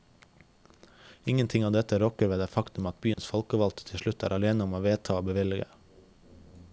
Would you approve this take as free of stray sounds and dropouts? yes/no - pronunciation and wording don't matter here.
no